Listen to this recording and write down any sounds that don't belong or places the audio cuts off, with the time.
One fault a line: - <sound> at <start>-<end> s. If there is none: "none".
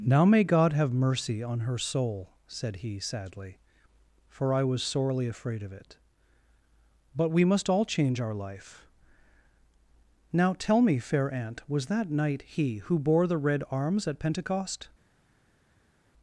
none